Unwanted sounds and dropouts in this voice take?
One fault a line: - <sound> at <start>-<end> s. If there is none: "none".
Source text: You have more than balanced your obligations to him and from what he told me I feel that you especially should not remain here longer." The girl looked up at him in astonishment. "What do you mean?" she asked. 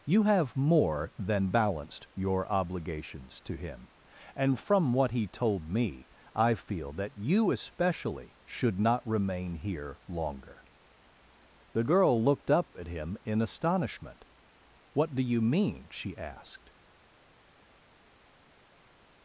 none